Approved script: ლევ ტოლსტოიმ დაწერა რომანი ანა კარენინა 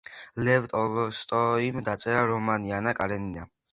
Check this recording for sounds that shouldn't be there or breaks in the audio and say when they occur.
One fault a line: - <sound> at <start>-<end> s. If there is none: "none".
none